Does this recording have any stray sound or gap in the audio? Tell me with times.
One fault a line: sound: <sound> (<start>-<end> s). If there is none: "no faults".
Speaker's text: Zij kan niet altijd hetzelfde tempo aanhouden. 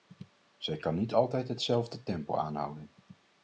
no faults